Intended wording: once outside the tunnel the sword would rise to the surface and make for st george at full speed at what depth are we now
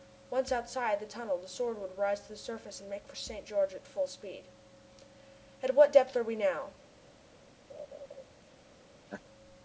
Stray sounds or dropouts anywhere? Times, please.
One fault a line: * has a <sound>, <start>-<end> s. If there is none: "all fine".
* has a laugh, 7.7-8.2 s
* has a laugh, 9.1-9.2 s